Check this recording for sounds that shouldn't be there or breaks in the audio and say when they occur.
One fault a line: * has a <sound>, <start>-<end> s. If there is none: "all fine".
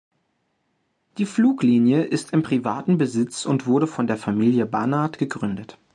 all fine